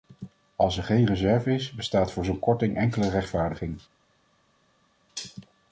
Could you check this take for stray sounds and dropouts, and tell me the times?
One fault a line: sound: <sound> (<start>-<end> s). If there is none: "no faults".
no faults